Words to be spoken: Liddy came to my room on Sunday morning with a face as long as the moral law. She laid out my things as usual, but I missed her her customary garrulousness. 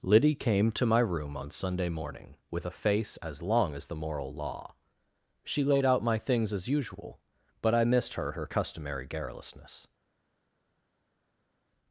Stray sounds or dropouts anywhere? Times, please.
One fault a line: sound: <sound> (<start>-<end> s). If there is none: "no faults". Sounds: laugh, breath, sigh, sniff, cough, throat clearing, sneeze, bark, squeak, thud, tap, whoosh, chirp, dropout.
no faults